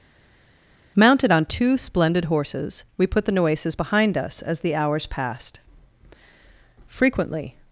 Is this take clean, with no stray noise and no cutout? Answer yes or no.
yes